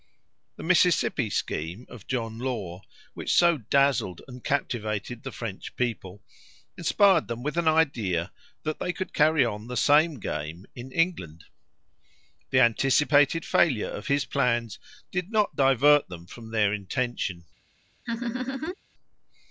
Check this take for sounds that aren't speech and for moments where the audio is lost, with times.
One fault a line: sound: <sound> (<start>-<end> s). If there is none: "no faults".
sound: laugh (18.1-18.8 s)